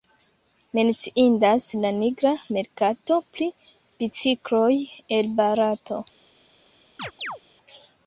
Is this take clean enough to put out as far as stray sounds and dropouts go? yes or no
no